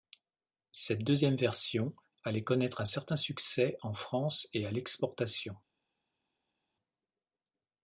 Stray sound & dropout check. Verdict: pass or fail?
pass